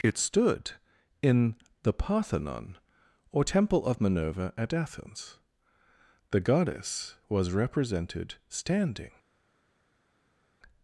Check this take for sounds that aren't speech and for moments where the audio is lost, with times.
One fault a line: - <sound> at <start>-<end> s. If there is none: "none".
none